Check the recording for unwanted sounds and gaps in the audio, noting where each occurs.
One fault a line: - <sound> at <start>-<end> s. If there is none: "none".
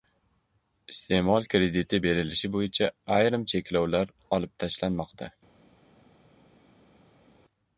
none